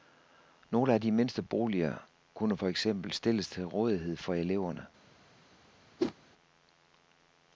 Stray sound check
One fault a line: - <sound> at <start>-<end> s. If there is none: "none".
- whoosh at 6.0-6.1 s